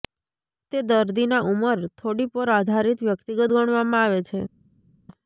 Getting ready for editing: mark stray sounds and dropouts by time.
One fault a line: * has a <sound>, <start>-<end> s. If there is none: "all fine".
all fine